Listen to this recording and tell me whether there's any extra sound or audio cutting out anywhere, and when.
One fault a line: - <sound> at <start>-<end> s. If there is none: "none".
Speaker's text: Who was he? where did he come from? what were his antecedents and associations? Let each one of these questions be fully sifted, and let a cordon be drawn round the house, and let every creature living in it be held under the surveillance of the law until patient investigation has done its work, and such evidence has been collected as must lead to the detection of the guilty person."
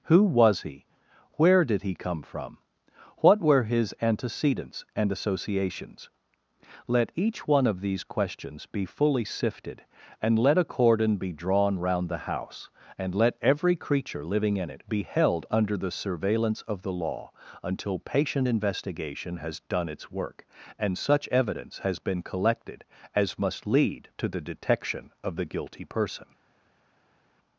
none